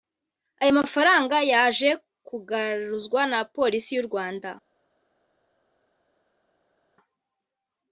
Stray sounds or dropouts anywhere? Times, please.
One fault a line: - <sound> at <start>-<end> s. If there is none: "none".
none